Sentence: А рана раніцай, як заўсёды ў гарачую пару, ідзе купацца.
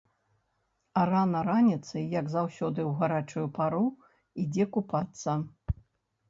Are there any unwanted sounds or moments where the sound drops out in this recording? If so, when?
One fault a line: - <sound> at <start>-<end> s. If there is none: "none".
none